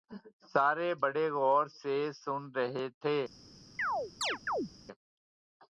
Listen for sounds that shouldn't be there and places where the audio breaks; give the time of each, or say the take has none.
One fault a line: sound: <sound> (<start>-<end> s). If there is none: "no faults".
sound: chirp (3.8-4.7 s)